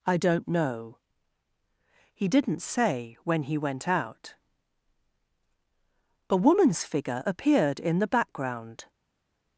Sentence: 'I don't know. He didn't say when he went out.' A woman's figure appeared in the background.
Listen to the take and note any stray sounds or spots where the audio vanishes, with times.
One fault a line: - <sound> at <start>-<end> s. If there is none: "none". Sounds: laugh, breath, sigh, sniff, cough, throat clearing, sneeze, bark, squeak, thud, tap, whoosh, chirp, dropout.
none